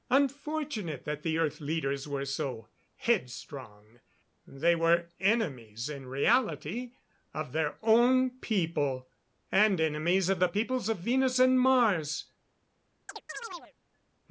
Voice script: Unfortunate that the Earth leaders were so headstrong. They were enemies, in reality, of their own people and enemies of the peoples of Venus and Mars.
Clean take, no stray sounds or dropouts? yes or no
no